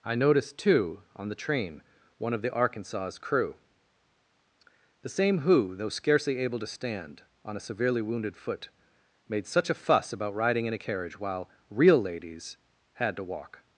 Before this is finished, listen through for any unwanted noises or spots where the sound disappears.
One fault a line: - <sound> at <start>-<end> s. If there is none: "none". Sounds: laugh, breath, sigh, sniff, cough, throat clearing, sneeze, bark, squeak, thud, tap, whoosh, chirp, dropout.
none